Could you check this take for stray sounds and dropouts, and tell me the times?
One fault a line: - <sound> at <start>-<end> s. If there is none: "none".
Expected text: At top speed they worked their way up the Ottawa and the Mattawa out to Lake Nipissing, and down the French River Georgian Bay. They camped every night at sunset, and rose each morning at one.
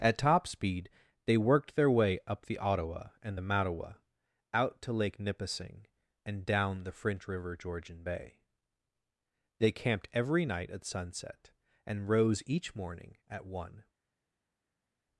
none